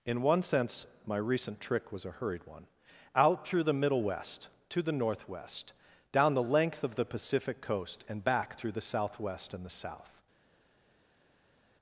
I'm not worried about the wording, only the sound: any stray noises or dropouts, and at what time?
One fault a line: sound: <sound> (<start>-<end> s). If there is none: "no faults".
no faults